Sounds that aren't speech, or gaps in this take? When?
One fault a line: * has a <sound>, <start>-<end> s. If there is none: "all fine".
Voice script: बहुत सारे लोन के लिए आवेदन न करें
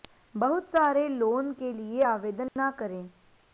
* has a dropout, 2.5-2.6 s